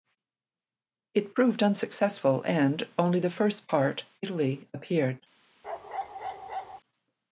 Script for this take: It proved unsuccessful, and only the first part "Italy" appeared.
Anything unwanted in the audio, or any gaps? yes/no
yes